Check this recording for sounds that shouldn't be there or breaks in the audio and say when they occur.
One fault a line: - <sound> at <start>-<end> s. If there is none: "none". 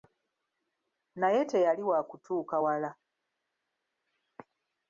none